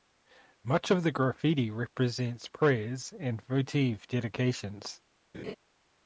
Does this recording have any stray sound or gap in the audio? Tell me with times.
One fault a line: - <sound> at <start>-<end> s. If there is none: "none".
- laugh at 5.3-5.6 s